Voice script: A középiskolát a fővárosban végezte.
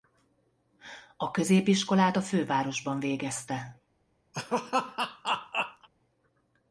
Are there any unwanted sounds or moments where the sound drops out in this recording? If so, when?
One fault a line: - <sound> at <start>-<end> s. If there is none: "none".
- laugh at 4.3-5.9 s